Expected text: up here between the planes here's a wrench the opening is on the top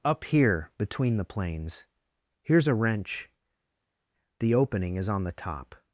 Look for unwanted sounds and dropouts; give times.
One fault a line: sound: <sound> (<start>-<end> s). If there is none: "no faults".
no faults